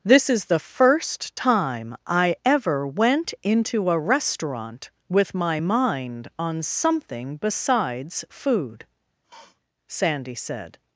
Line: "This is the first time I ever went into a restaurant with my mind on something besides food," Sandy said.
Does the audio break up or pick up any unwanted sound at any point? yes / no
yes